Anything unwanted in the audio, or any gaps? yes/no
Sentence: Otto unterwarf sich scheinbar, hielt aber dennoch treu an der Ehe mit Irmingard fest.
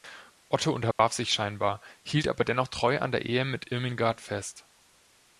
yes